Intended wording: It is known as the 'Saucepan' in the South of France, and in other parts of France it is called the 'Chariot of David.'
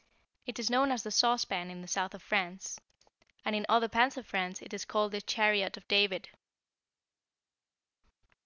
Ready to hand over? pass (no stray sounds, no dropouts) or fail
pass